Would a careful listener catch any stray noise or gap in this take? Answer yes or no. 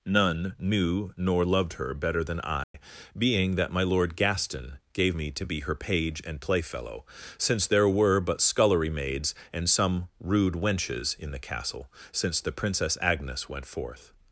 yes